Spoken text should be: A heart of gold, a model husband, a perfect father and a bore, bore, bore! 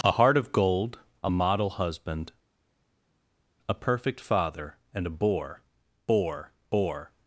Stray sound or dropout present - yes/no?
no